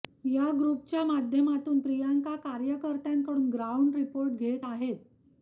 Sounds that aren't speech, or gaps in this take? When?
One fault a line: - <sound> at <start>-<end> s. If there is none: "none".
none